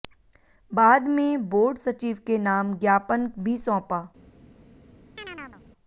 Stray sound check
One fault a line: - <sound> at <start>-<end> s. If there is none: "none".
- chirp at 5.2-5.6 s